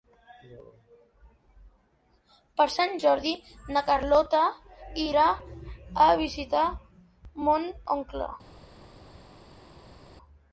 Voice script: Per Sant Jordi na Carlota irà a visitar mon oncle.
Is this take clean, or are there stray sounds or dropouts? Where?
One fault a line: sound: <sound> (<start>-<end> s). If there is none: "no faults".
no faults